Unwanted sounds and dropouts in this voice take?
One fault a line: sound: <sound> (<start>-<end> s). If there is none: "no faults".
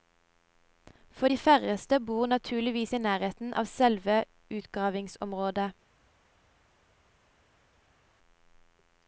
no faults